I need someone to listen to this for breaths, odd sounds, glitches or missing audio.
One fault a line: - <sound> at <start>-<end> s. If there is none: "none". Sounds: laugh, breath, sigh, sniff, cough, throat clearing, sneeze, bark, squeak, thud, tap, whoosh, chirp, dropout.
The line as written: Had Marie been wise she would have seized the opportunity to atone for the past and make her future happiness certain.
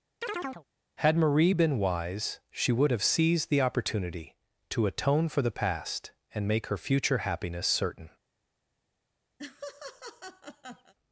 - chirp at 0.2-0.7 s
- laugh at 9.4-10.9 s